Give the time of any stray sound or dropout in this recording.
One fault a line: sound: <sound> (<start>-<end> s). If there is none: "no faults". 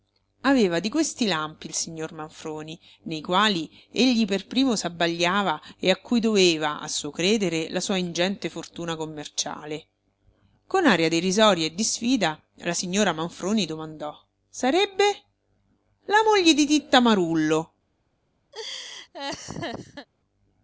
sound: laugh (18.5-20.1 s)